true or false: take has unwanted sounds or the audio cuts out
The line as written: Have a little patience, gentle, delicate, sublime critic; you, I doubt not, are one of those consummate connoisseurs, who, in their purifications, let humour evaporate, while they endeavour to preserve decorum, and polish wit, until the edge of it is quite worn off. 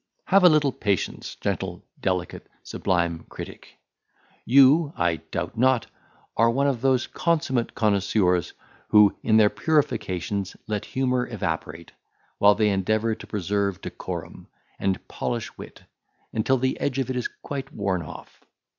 false